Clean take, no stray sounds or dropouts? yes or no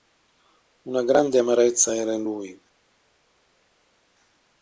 yes